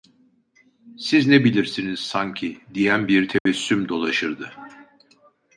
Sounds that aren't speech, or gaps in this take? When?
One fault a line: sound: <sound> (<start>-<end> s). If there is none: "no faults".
sound: dropout (3.4-3.5 s)